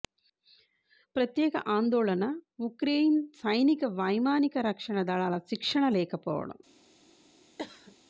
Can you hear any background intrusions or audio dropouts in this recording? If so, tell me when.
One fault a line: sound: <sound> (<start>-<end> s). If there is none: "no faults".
sound: cough (7.6-8.0 s)